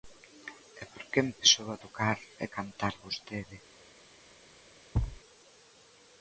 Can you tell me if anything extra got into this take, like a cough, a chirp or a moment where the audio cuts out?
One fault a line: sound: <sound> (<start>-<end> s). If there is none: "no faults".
sound: thud (4.9-5.2 s)